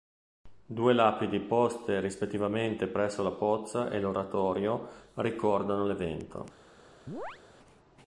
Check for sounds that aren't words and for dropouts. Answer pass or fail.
fail